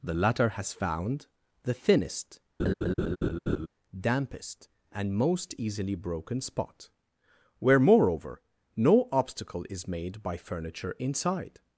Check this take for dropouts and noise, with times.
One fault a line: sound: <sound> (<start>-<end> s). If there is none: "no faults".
sound: laugh (2.6-3.7 s)